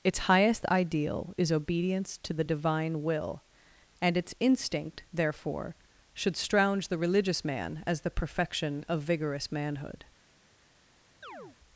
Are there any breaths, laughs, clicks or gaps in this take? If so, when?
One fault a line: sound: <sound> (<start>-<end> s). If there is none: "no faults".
sound: chirp (11.2-11.6 s)